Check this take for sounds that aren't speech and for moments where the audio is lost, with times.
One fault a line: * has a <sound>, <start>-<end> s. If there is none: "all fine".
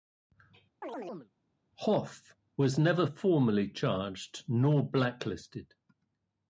* has a chirp, 0.8-1.3 s